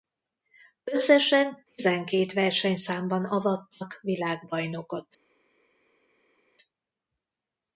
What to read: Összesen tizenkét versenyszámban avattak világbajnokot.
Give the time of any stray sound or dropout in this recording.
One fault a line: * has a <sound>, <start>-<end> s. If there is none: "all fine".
all fine